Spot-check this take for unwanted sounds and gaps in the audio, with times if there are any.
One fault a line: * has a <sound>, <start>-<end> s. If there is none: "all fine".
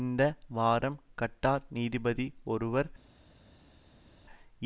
all fine